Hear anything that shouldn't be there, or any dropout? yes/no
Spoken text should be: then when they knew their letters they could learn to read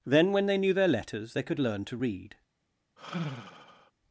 yes